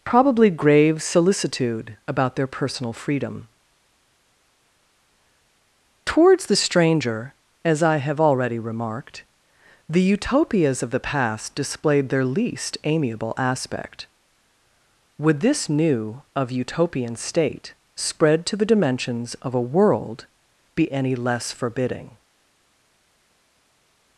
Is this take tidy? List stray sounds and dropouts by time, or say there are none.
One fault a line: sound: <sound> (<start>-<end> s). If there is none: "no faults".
no faults